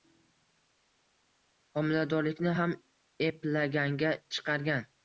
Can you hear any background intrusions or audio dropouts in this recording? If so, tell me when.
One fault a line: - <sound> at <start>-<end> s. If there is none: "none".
none